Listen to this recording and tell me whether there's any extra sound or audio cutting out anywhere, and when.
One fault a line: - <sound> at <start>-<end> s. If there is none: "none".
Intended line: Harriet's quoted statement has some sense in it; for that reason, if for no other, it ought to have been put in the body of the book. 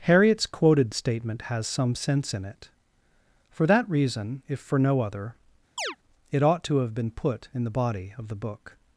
- chirp at 5.8-6.0 s